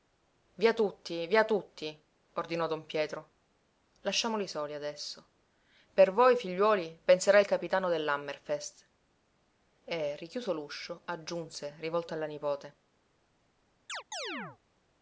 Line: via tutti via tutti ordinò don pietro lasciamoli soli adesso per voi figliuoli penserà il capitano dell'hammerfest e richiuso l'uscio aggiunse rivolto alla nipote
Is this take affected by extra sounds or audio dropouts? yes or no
yes